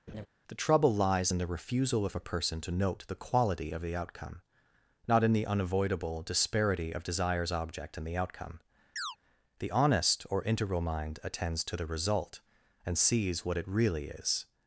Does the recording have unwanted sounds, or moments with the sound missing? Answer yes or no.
yes